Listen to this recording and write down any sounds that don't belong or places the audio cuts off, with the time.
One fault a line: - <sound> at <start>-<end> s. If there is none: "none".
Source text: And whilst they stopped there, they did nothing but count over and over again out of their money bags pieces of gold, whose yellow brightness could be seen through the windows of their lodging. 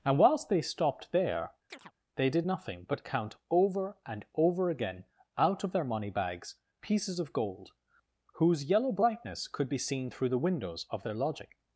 - chirp at 1.7-1.9 s